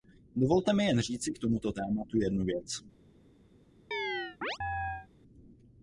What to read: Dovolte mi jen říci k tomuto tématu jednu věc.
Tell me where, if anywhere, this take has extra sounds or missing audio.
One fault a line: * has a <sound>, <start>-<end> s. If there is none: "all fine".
* has a chirp, 3.9-5.1 s